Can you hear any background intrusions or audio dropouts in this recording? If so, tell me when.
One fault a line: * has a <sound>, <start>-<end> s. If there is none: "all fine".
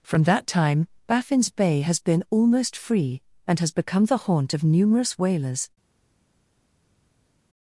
all fine